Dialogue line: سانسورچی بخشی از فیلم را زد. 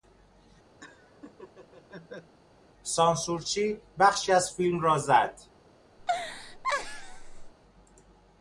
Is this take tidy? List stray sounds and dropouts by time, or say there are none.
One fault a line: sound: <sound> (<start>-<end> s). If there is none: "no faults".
sound: laugh (0.8-2.4 s)
sound: laugh (6.0-7.5 s)